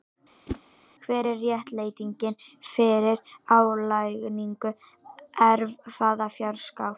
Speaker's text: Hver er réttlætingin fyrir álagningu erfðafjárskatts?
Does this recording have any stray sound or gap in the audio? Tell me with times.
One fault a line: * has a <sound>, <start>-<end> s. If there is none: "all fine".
* has a whoosh, 0.5-0.6 s